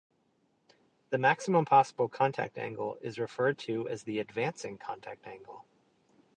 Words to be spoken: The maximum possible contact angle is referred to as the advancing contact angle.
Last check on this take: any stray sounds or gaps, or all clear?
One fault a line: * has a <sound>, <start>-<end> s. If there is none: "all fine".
all fine